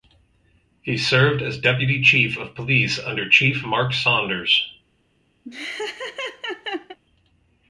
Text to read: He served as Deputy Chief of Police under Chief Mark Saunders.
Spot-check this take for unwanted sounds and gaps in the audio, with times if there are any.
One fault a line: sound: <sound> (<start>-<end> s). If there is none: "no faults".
sound: laugh (5.4-7.0 s)